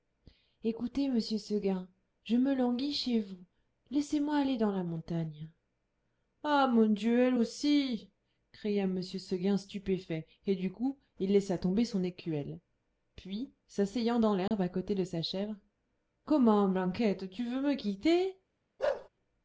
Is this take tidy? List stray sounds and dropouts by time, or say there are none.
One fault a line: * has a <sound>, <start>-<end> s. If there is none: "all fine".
* has a dropout, 14.5-14.5 s
* has a bark, 18.8-19.1 s